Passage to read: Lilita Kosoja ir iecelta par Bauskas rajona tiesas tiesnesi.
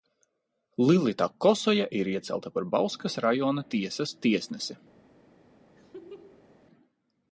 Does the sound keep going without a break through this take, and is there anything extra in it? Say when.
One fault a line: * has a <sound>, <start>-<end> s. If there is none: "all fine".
* has a laugh, 5.8-6.6 s